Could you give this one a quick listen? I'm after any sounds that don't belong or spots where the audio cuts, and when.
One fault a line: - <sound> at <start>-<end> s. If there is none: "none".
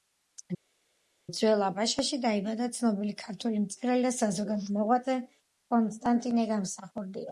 none